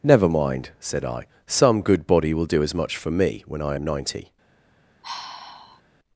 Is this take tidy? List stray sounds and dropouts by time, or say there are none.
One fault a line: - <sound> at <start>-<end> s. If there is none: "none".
- sigh at 5.0-5.8 s